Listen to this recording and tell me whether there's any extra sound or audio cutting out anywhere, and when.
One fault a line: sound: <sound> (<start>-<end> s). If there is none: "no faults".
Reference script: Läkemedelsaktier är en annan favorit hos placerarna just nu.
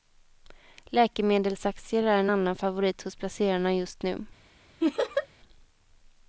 sound: laugh (4.8-5.3 s)